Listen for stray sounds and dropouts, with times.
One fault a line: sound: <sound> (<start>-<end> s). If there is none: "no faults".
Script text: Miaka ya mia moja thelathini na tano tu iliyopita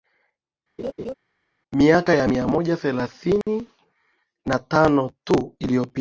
sound: laugh (0.8-1.1 s)
sound: dropout (3.4-3.5 s)